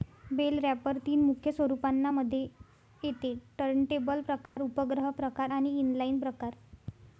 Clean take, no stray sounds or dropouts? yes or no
no